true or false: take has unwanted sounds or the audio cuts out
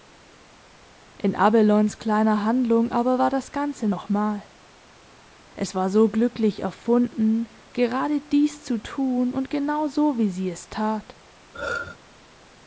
true